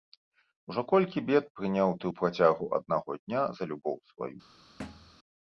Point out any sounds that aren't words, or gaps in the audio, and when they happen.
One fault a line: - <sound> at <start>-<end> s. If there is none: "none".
- thud at 4.8-5.2 s